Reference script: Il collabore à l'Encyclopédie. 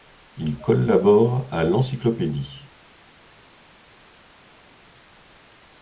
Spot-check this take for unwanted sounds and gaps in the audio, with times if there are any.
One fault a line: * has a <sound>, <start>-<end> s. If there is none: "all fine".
all fine